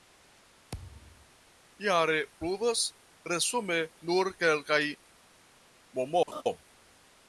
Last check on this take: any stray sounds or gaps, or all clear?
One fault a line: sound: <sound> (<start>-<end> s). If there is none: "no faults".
sound: thud (0.7-1.3 s)
sound: laugh (6.3-6.4 s)